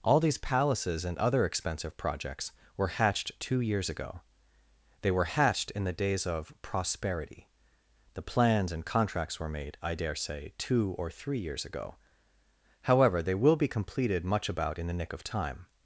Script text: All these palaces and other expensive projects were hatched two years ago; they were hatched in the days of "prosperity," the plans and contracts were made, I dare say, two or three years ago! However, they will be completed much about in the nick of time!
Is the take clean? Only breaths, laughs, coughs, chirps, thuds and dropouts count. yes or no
yes